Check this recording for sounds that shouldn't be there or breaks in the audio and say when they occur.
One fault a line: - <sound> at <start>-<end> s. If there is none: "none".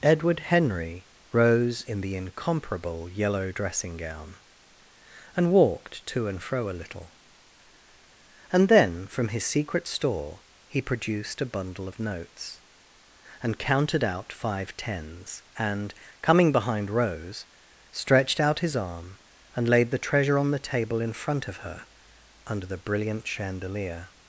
none